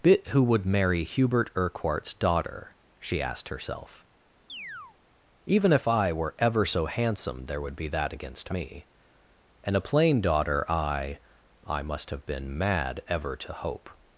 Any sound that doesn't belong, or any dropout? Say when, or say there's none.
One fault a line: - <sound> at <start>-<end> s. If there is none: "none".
- chirp at 4.5-5.0 s